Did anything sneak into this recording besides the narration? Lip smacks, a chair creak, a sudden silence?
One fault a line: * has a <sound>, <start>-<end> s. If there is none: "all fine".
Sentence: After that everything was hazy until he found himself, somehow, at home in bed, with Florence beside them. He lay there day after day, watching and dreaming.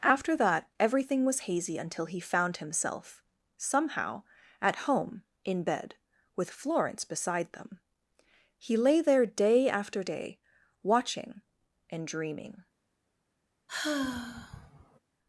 * has a sigh, 13.7-15.0 s